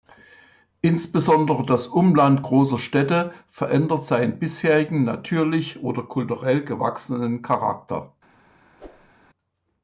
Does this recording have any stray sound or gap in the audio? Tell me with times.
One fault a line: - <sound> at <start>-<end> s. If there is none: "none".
- whoosh at 8.8-9.1 s